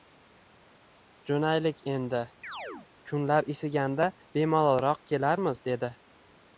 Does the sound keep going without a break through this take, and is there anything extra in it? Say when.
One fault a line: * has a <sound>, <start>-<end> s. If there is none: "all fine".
* has a chirp, 2.4-2.9 s